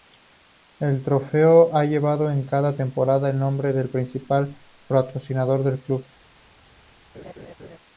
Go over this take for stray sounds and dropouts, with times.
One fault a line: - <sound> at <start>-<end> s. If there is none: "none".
- laugh at 7.1-7.8 s